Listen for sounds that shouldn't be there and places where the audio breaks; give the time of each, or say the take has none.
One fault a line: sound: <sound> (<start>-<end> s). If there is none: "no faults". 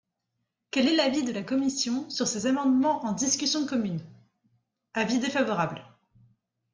no faults